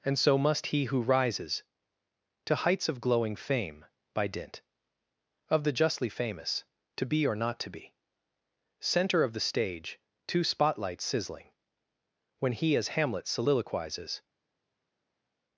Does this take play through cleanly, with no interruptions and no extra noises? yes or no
yes